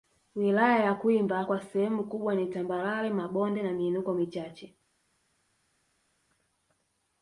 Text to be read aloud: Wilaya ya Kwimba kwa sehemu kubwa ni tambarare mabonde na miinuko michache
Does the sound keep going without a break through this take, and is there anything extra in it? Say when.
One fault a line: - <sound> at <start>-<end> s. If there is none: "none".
none